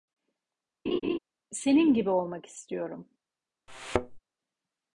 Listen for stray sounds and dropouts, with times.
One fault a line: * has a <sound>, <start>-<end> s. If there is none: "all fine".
* has a laugh, 0.9-1.2 s
* has a thud, 3.7-4.2 s